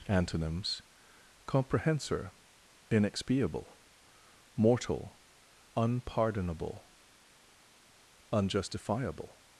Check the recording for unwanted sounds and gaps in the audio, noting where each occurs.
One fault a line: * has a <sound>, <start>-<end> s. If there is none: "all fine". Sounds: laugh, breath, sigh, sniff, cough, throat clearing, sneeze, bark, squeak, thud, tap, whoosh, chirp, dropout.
all fine